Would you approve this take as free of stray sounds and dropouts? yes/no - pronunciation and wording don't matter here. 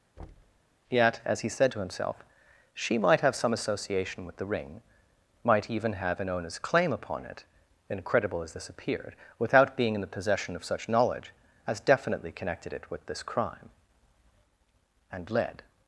no